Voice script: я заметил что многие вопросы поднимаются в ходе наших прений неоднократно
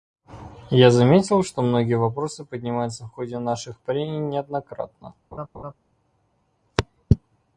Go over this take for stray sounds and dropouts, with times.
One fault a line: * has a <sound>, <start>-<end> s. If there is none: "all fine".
* has a laugh, 5.3-5.7 s